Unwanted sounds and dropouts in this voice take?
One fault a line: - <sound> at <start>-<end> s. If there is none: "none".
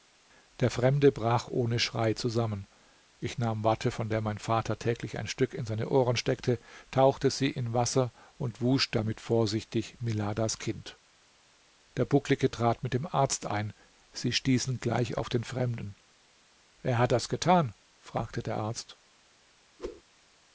- whoosh at 19.8-20.0 s